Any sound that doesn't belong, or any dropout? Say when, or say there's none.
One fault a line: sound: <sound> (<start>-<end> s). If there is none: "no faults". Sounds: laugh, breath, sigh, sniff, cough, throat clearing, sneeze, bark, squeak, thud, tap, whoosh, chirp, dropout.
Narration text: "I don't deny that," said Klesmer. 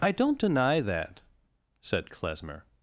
no faults